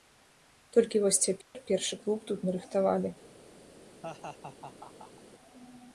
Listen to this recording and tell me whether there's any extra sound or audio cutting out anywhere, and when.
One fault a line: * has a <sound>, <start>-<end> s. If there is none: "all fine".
* has a dropout, 1.4-1.6 s
* has a laugh, 4.0-5.2 s